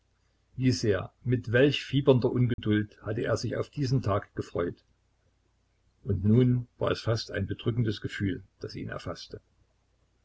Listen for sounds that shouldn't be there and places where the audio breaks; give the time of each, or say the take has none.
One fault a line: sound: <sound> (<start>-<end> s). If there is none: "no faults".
sound: dropout (2.5-2.6 s)